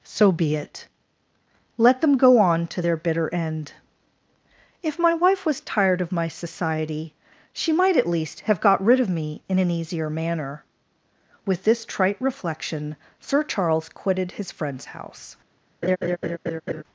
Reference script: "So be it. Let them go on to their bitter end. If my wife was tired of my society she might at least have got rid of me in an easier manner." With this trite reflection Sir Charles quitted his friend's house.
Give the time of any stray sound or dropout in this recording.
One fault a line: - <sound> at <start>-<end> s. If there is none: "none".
- laugh at 15.8-16.8 s